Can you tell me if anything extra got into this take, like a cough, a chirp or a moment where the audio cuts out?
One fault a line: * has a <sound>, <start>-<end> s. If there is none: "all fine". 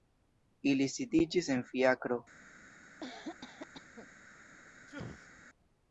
* has a cough, 3.0-4.1 s
* has a sneeze, 4.9-5.4 s